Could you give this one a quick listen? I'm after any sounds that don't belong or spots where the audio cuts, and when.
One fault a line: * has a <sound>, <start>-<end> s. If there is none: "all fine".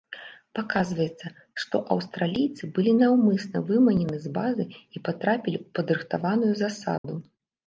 * has a dropout, 7.0-7.0 s